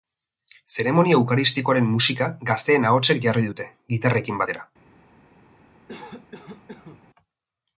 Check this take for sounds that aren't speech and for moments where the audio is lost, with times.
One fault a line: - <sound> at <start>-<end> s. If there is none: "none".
- cough at 5.9-7.0 s